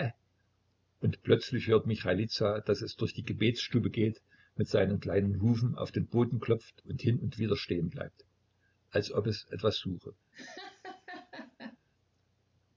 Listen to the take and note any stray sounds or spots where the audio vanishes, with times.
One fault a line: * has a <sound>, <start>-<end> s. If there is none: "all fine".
* has a laugh, 10.3-11.8 s